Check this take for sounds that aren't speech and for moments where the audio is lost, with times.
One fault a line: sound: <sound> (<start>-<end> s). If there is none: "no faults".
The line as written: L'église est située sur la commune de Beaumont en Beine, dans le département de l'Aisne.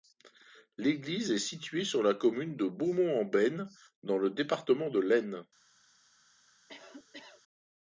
sound: cough (6.7-7.4 s)